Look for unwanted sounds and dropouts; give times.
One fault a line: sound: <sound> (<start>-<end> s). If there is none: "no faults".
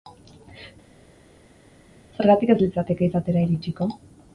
no faults